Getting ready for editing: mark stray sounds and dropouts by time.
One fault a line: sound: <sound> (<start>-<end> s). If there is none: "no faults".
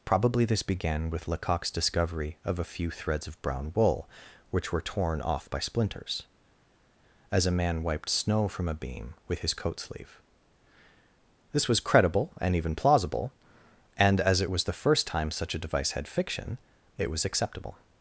no faults